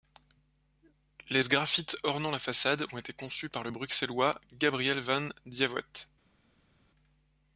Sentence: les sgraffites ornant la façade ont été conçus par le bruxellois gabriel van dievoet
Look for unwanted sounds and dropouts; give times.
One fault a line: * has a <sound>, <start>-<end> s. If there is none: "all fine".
all fine